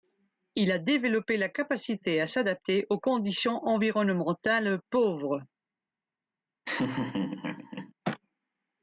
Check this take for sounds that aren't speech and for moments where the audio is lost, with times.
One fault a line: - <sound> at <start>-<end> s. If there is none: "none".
- laugh at 6.7-7.9 s